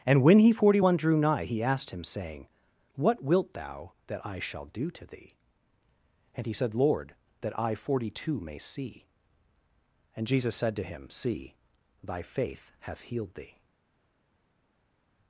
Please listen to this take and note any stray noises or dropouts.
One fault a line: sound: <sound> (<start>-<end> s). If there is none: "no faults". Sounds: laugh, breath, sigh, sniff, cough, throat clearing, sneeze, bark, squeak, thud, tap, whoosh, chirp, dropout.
no faults